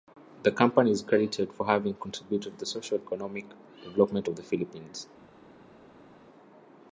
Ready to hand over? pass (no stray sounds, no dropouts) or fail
pass